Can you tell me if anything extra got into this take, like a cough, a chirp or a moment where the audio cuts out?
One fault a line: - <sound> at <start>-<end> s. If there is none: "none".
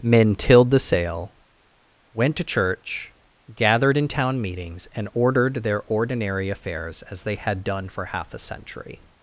none